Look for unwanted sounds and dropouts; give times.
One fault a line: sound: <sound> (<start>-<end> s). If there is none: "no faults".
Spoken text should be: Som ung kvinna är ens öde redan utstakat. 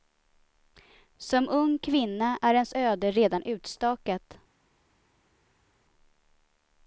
no faults